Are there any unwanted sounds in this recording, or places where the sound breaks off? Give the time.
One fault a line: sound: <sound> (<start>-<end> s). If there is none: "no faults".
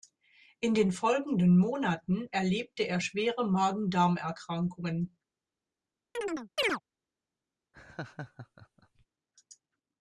sound: chirp (6.1-6.8 s)
sound: laugh (7.7-9.1 s)